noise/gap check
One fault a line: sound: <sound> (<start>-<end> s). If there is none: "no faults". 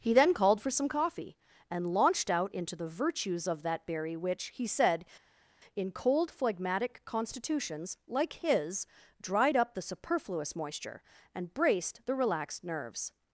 no faults